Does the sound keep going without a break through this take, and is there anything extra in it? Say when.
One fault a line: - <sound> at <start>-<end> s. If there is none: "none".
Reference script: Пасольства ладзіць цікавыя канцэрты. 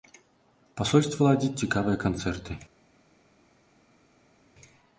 none